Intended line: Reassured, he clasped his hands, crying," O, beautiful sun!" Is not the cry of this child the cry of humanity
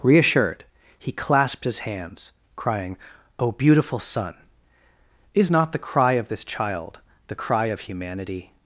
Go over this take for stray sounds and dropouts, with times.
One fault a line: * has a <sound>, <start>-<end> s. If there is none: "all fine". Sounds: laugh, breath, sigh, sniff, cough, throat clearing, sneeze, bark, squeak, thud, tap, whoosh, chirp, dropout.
all fine